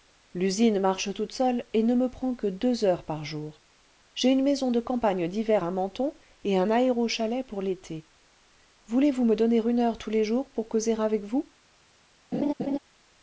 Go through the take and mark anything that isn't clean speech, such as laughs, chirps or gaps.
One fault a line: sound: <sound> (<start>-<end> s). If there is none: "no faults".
sound: laugh (12.3-12.8 s)